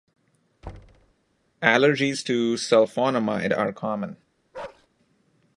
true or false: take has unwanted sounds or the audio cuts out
true